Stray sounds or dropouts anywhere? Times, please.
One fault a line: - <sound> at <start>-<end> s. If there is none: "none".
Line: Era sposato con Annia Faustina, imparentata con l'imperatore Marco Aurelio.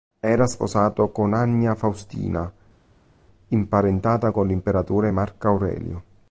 none